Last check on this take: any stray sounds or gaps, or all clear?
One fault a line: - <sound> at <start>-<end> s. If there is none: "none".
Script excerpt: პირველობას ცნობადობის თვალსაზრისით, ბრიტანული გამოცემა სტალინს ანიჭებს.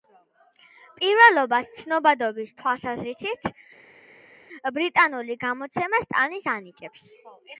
none